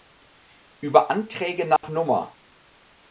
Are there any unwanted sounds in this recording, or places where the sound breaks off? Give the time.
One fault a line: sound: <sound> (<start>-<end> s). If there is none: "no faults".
sound: dropout (1.8-1.8 s)